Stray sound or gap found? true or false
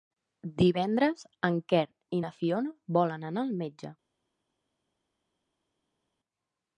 false